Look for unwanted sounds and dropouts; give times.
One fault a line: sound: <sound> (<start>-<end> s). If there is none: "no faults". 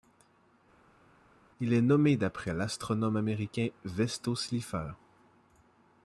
no faults